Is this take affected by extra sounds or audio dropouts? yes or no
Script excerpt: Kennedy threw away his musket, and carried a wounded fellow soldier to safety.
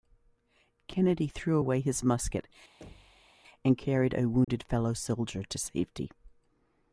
yes